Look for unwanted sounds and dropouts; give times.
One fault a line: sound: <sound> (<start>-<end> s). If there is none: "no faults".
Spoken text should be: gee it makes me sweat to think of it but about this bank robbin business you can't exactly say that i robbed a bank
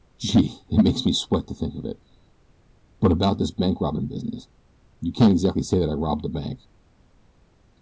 no faults